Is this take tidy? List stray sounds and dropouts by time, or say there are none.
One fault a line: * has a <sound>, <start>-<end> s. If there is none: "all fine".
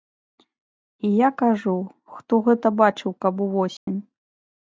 * has a dropout, 3.8-3.9 s